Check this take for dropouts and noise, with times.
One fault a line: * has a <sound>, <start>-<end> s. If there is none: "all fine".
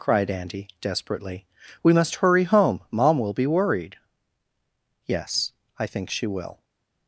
all fine